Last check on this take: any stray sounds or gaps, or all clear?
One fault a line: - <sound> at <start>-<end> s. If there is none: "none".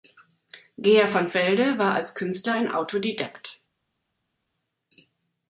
none